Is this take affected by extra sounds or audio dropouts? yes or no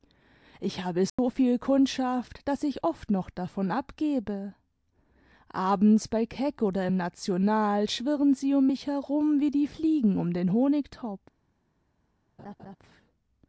yes